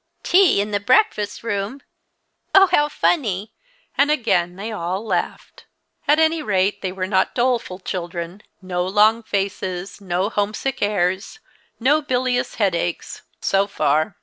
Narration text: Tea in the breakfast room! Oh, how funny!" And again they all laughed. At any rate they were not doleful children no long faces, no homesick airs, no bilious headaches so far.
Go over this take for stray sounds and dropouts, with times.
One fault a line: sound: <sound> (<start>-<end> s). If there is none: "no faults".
no faults